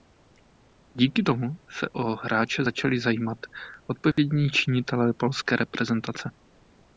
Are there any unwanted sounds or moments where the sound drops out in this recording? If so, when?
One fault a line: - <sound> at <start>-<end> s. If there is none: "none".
- dropout at 4.1-4.2 s